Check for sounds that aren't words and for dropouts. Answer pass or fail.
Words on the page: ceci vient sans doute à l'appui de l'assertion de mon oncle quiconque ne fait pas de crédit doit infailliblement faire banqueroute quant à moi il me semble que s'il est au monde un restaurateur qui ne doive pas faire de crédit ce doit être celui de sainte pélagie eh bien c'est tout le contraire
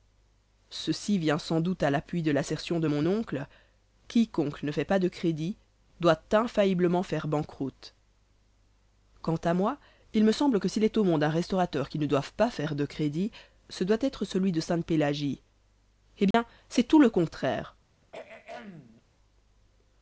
fail